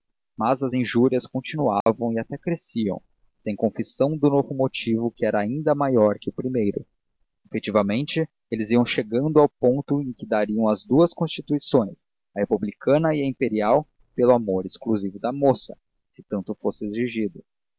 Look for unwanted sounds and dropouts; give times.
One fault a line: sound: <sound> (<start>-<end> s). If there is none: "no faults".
sound: dropout (1.8-1.9 s)